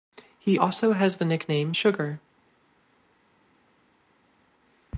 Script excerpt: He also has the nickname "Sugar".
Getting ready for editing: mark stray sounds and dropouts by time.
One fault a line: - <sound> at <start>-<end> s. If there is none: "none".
none